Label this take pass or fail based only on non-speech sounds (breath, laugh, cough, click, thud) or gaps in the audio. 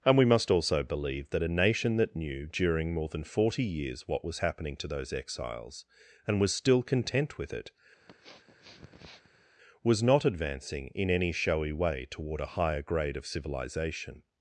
fail